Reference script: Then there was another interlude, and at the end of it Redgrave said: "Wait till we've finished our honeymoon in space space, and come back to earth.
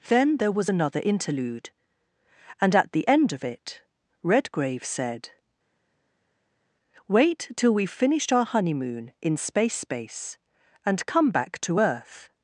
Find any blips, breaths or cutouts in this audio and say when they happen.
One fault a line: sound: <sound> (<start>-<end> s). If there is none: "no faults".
no faults